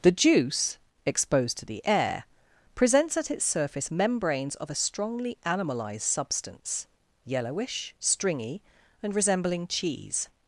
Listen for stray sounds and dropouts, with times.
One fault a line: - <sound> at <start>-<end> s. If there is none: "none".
none